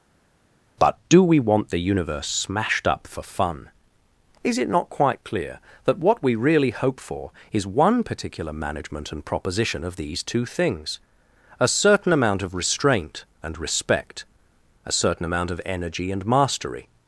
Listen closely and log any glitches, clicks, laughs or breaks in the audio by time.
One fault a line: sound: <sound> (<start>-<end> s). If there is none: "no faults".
no faults